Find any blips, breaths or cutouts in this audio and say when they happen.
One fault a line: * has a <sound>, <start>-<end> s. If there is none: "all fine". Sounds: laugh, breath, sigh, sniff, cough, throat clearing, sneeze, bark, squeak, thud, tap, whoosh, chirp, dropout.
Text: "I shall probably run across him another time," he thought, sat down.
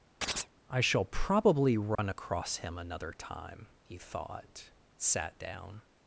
* has a chirp, 0.2-0.5 s
* has a dropout, 1.9-2.0 s